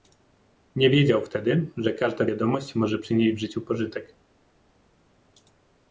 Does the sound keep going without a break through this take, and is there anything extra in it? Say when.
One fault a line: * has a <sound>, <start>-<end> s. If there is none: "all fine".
all fine